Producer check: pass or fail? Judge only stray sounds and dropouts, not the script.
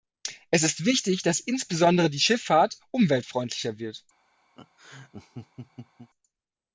fail